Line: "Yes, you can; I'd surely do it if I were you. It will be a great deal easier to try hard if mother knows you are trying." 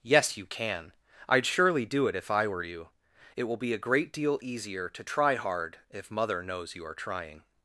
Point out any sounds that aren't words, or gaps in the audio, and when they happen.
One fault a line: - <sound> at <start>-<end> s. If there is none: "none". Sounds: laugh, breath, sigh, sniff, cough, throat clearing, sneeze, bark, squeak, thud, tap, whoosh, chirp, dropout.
none